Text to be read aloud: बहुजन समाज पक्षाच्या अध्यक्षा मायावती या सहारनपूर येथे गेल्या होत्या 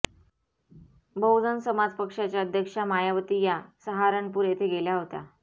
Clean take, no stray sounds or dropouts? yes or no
yes